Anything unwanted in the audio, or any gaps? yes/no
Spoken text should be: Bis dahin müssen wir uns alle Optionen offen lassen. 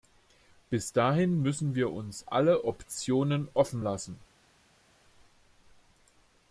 no